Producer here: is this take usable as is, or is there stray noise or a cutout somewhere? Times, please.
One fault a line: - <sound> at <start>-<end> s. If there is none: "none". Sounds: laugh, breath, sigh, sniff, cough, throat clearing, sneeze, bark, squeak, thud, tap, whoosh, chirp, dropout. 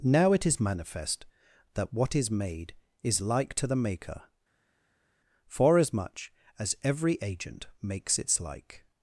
none